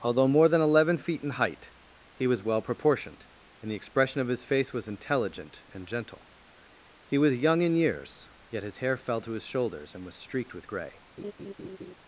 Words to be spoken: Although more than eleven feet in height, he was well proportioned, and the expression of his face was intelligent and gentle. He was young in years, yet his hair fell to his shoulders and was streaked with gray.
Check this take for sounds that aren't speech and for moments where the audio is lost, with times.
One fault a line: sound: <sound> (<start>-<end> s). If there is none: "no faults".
sound: laugh (11.2-11.9 s)